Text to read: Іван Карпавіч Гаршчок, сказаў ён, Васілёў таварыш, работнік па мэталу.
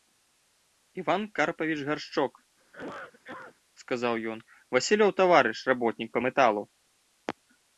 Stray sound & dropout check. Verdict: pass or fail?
fail